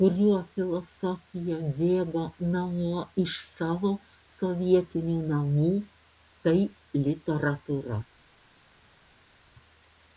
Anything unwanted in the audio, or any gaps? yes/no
no